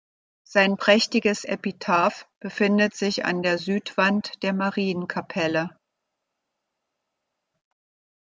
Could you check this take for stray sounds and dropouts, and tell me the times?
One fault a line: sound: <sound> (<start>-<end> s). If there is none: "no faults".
no faults